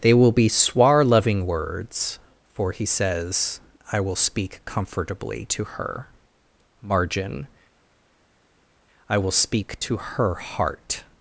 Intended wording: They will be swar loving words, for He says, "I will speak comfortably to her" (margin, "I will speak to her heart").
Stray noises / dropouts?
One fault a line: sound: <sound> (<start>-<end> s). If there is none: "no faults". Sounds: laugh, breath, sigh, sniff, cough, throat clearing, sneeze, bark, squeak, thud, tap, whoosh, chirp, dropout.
no faults